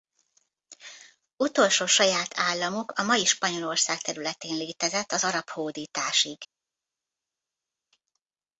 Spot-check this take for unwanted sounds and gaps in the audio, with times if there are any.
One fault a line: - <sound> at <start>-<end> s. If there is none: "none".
none